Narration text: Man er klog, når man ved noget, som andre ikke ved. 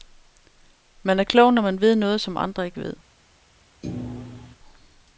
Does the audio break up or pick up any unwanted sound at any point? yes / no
yes